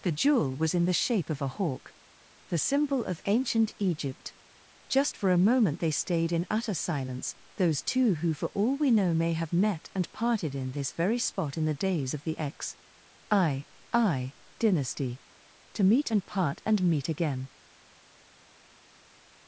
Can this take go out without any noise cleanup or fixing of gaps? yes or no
yes